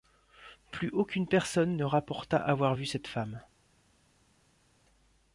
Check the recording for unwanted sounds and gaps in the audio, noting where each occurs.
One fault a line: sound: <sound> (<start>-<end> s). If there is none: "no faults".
no faults